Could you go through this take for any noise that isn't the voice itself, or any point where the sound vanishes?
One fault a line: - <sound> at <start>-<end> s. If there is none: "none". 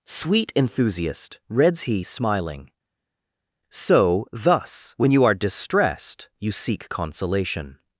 none